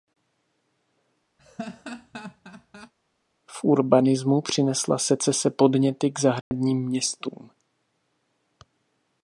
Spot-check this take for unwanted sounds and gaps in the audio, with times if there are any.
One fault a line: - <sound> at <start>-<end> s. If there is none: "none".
- laugh at 1.4-2.9 s
- dropout at 6.4-6.5 s